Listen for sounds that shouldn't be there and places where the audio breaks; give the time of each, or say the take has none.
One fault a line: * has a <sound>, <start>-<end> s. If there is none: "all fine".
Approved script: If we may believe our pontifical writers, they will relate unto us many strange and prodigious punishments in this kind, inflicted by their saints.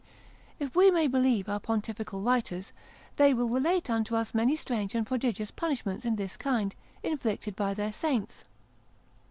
all fine